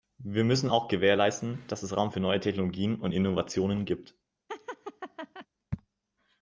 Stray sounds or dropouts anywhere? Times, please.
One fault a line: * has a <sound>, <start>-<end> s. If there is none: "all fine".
* has a laugh, 4.5-5.5 s